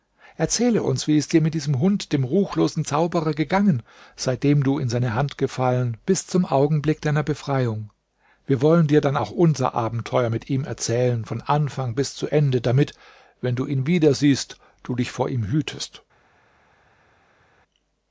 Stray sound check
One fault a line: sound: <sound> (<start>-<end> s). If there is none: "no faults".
no faults